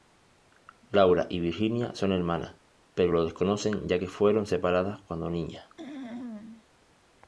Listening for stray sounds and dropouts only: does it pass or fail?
fail